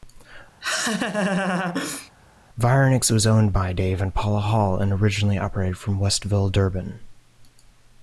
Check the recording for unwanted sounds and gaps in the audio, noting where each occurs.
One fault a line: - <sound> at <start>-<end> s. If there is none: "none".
- laugh at 0.6-2.1 s